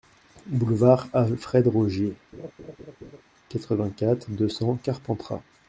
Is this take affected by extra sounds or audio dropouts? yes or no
yes